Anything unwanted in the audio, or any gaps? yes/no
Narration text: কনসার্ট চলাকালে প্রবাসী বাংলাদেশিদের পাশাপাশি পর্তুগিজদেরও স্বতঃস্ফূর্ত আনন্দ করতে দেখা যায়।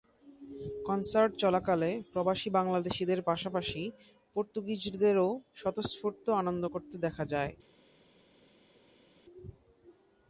no